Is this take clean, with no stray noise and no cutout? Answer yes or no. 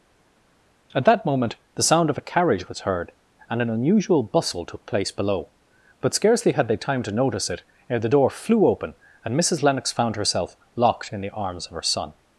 yes